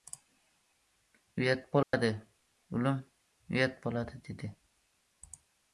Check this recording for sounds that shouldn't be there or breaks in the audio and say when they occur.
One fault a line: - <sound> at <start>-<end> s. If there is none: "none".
- dropout at 1.8-1.9 s